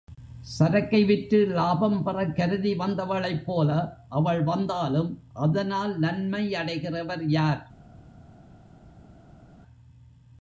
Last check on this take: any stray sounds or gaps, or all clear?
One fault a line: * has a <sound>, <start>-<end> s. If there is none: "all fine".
all fine